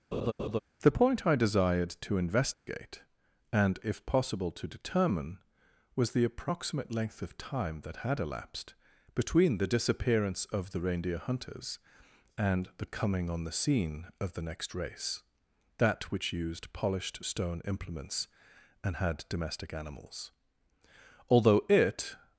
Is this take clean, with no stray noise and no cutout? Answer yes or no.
no